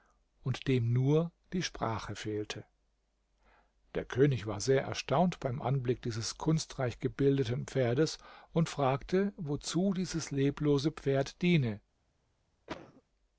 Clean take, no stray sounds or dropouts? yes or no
no